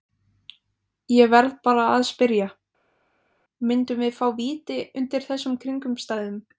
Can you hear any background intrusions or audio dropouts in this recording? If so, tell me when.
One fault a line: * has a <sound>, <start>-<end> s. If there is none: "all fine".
all fine